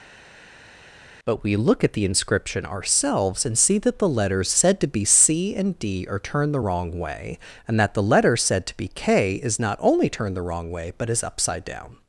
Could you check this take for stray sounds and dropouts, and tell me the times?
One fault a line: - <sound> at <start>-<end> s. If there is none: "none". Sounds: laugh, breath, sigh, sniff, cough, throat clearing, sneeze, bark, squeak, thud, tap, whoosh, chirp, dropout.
none